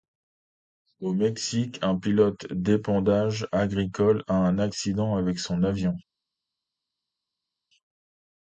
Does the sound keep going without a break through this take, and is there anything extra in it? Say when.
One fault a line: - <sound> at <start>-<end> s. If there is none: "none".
none